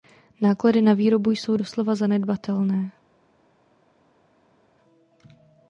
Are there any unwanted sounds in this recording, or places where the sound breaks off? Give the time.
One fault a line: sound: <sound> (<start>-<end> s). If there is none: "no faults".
no faults